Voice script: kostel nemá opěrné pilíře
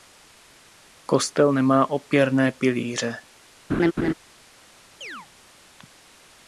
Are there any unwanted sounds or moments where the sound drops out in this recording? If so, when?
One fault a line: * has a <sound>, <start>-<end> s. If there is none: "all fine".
* has a laugh, 3.7-4.1 s
* has a chirp, 5.0-5.3 s